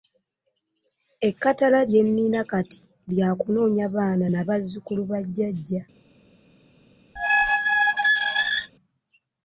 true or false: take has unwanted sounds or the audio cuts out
true